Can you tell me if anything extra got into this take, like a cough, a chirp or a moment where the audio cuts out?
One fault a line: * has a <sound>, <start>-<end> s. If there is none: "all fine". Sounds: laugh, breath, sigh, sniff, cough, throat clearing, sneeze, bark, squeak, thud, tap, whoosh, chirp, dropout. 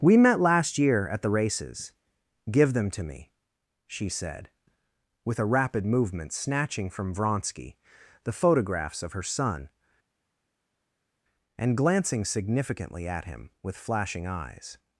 all fine